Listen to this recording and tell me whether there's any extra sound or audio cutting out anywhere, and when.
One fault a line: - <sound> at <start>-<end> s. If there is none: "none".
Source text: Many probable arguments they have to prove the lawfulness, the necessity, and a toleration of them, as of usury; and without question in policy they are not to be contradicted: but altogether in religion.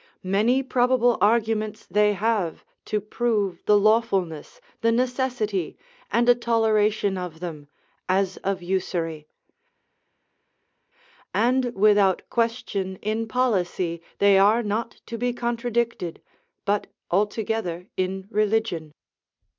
none